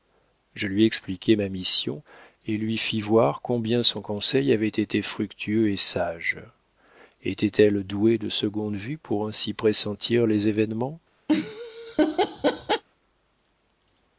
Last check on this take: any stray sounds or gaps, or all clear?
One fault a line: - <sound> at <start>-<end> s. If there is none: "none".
- laugh at 11.3-12.8 s